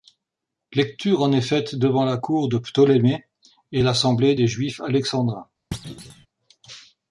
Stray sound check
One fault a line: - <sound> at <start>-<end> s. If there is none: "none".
- thud at 5.7-6.3 s